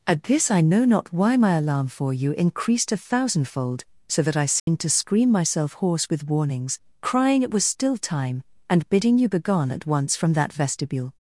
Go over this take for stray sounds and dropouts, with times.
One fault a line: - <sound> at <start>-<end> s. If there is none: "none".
- dropout at 4.6-4.7 s